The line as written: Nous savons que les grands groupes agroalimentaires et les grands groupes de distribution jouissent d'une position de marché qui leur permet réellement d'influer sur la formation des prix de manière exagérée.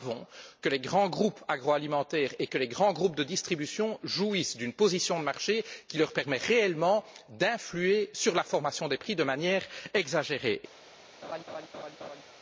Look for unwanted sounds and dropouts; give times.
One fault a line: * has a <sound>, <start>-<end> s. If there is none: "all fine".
* has a laugh, 11.2-12.2 s